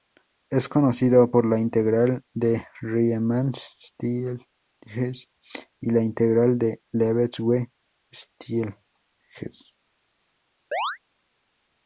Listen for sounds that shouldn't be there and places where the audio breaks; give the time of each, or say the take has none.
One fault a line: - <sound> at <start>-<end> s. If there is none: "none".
- chirp at 10.7-11.0 s